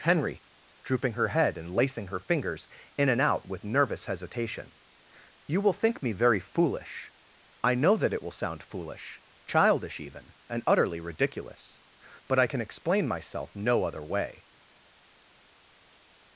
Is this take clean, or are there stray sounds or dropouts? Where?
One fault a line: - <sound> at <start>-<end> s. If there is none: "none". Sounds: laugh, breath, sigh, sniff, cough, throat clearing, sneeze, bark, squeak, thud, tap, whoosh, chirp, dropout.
none